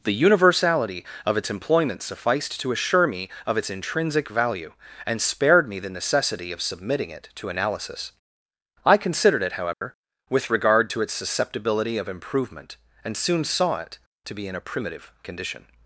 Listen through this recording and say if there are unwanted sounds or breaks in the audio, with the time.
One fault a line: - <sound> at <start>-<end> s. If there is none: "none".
- dropout at 9.7-9.8 s